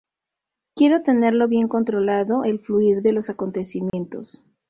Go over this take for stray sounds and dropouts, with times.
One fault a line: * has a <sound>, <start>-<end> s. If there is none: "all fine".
* has a dropout, 3.9-3.9 s